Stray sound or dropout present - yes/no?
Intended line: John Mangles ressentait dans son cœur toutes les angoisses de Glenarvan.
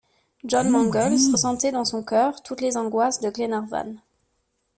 no